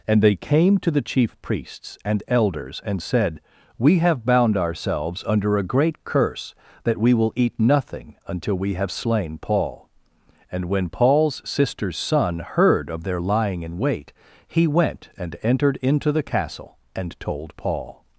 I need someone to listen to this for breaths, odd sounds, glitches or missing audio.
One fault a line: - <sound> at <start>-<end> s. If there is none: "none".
none